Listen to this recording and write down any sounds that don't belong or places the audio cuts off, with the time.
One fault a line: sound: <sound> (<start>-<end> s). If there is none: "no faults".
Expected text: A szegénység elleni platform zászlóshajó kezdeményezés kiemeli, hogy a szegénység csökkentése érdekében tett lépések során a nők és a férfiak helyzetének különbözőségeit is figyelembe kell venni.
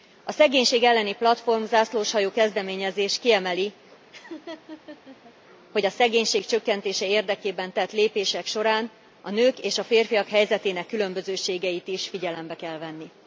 sound: laugh (4.1-5.3 s)